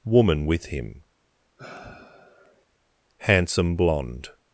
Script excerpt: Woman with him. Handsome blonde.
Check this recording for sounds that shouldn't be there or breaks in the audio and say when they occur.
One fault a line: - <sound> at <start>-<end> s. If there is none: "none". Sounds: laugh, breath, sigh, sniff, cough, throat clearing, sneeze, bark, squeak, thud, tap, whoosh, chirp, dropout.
- sigh at 1.6-2.7 s